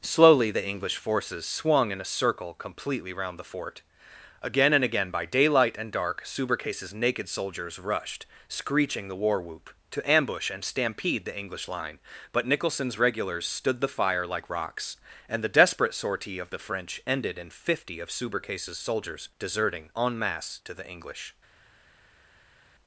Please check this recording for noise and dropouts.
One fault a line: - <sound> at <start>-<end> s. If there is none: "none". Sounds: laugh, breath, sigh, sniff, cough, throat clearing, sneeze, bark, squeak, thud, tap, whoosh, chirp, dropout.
none